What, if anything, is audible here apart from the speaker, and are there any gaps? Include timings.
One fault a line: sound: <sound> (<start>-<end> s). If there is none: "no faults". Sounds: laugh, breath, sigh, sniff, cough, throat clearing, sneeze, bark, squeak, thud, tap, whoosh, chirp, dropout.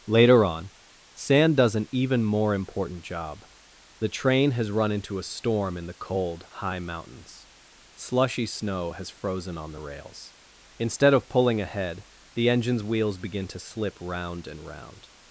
no faults